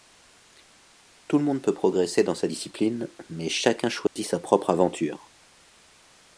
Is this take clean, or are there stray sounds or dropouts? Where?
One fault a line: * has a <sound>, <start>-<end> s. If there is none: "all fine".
* has a dropout, 4.1-4.2 s